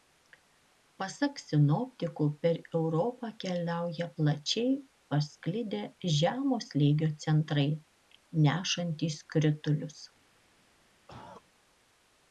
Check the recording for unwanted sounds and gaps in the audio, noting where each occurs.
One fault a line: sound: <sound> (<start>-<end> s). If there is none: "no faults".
sound: cough (11.1-11.4 s)